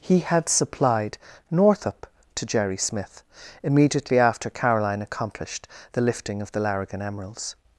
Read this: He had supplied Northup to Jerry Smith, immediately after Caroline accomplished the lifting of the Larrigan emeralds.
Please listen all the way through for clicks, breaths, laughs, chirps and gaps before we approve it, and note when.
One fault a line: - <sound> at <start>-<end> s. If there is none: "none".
none